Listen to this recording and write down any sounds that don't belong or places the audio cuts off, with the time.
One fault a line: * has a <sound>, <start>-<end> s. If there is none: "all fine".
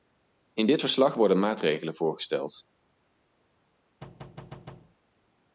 * has a thud, 4.0-5.0 s